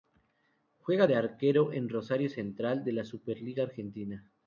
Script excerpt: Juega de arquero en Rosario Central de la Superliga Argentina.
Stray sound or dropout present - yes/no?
no